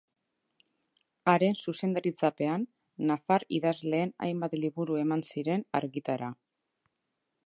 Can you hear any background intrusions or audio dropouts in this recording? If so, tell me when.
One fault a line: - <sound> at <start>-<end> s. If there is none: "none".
none